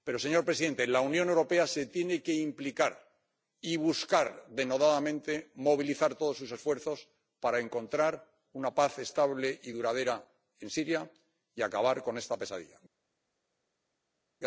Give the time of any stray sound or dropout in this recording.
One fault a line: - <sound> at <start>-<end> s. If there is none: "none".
none